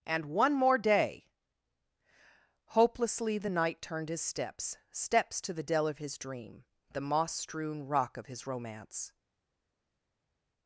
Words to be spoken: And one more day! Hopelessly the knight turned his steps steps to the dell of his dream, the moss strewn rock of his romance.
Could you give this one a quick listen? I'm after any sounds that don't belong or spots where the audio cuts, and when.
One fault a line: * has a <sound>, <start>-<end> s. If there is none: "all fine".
all fine